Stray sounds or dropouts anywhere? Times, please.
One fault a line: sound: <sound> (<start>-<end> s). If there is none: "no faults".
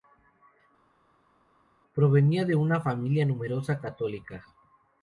no faults